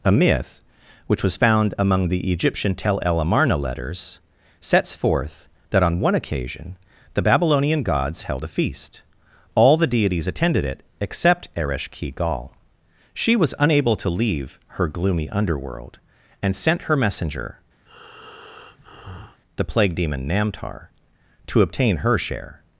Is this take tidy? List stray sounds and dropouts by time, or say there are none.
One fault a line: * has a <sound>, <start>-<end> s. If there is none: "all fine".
* has a breath, 17.9-19.4 s